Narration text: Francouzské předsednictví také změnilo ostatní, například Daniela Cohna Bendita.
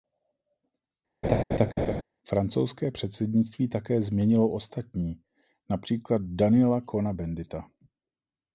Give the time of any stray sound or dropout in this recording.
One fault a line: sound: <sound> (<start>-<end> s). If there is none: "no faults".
sound: laugh (1.2-2.0 s)